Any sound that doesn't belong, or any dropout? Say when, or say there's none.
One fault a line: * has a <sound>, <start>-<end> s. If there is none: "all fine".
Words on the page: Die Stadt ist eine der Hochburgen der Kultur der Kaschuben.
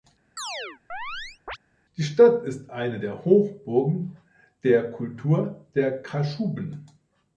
* has a chirp, 0.4-1.6 s